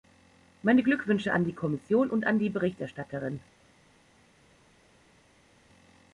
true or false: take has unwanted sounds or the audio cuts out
false